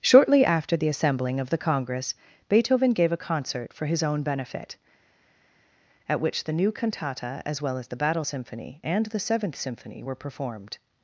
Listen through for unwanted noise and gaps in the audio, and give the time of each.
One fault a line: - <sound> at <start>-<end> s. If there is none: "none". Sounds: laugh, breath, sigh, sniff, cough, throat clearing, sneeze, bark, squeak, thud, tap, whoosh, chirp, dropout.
none